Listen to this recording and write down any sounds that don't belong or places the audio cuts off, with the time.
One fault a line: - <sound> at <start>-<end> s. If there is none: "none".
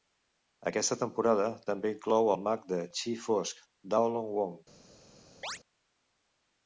- chirp at 5.4-5.6 s